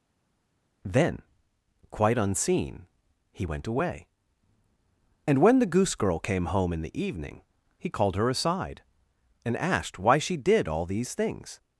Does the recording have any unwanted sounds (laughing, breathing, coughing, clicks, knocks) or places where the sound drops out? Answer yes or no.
no